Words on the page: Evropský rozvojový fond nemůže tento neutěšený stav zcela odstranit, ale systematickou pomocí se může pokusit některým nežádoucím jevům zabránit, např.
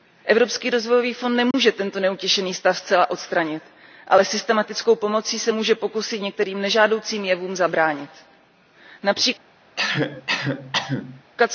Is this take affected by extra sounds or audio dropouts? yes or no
yes